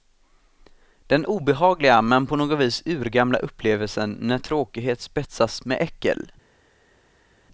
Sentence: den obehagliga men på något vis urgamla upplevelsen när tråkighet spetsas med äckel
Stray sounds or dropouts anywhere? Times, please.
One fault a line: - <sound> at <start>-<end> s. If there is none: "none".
none